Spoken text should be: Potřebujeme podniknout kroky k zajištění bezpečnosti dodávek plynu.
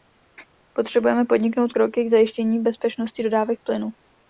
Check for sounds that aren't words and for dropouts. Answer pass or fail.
pass